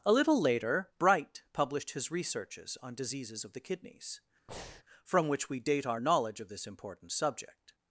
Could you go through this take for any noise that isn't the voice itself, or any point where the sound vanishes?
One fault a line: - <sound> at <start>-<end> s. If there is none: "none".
- breath at 4.5-4.8 s